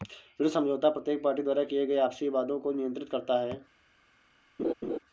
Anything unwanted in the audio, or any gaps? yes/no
yes